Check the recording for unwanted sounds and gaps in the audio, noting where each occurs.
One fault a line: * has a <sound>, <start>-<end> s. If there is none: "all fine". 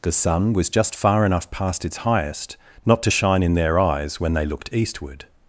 all fine